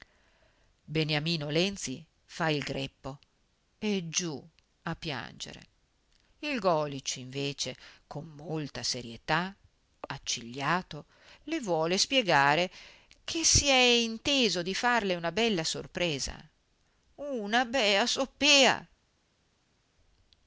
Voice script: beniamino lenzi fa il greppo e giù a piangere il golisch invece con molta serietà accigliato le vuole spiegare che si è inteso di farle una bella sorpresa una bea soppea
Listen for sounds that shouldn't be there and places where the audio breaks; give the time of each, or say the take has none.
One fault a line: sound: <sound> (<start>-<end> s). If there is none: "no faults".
no faults